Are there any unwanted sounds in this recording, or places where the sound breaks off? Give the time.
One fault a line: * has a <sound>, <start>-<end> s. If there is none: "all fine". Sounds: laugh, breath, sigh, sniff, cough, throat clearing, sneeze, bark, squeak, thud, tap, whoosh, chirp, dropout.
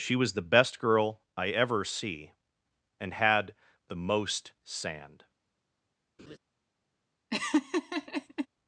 * has a laugh, 6.2-6.4 s
* has a laugh, 7.3-8.5 s